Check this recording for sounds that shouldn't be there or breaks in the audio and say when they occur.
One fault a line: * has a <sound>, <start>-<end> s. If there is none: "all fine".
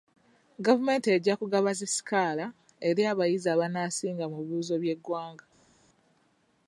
all fine